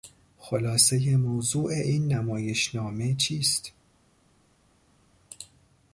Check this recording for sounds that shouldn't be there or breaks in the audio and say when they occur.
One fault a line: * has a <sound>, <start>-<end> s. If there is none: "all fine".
all fine